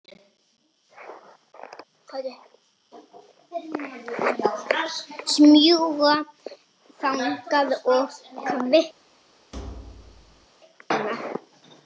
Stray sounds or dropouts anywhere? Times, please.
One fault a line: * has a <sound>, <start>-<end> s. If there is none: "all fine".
* has a thud, 9.5-10.5 s